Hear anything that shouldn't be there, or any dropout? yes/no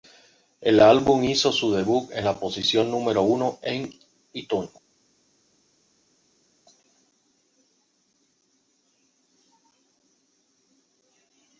no